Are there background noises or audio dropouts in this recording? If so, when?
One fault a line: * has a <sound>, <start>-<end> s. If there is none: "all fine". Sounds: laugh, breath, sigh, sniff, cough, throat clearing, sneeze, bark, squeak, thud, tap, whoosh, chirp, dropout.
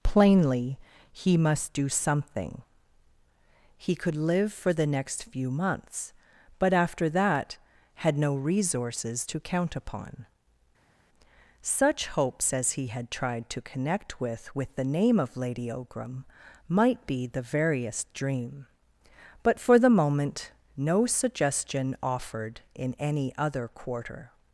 all fine